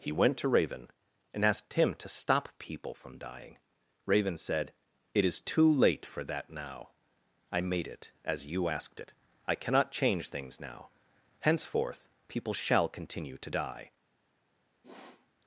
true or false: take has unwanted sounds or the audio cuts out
true